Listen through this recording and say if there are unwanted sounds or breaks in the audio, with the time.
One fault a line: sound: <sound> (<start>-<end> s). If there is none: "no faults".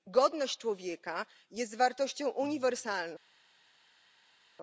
no faults